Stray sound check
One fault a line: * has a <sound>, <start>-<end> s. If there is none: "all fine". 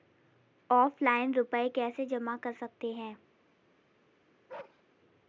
* has a bark, 4.5-4.8 s